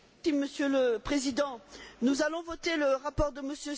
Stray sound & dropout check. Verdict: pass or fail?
pass